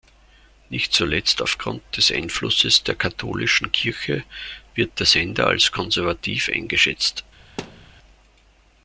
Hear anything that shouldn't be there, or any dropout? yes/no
yes